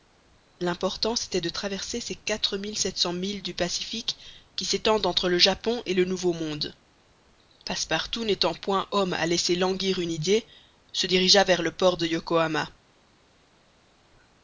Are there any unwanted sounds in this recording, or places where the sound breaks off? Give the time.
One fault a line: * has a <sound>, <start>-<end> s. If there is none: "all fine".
all fine